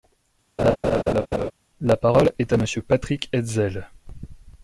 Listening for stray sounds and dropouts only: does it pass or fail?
fail